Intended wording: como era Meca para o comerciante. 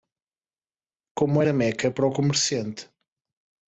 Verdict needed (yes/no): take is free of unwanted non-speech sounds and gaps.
yes